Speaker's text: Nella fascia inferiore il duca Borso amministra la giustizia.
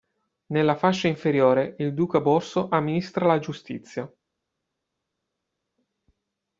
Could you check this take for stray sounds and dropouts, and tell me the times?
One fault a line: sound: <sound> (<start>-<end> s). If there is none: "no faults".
no faults